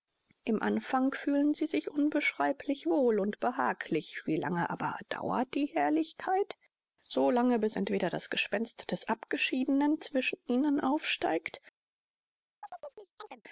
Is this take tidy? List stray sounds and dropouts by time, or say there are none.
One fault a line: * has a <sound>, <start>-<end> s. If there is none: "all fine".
* has a chirp, 12.6-13.4 s